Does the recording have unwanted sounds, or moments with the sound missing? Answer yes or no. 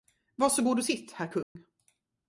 yes